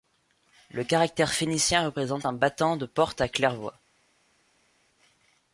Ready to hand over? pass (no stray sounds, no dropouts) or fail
pass